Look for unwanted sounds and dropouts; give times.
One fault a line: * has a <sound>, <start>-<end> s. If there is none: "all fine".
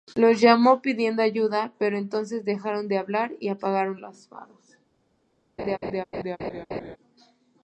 * has a laugh, 5.6-7.0 s